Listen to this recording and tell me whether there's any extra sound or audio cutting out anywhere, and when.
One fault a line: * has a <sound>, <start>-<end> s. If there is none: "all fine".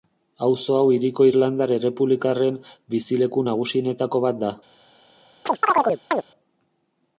* has a chirp, 5.5-6.2 s